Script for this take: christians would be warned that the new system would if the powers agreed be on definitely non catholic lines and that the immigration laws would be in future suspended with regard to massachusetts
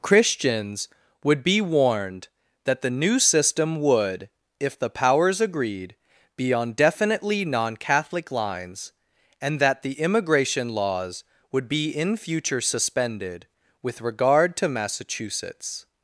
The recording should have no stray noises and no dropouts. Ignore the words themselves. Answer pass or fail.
pass